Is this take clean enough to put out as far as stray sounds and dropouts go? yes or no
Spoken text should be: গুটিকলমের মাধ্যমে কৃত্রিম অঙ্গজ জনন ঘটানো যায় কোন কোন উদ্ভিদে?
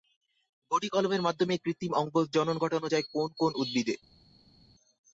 yes